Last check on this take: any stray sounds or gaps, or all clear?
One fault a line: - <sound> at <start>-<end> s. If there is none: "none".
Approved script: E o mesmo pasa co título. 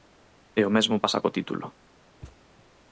- thud at 2.2-2.4 s